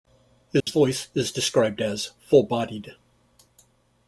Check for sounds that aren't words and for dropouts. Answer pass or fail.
fail